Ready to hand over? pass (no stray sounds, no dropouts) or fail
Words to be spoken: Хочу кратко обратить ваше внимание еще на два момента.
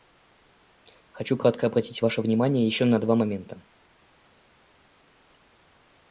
pass